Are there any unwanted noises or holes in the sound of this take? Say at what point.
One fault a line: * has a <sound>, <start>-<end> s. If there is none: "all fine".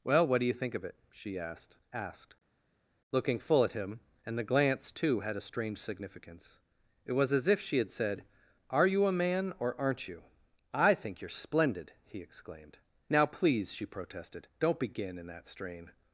all fine